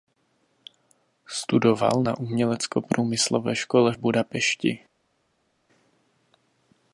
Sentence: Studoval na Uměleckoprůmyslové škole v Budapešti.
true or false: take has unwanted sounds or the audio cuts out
false